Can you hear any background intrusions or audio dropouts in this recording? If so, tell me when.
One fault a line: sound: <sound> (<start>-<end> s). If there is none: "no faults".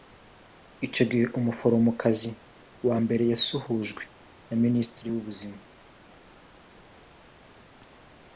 no faults